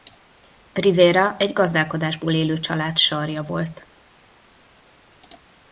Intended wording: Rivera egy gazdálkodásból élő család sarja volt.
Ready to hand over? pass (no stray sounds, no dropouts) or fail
pass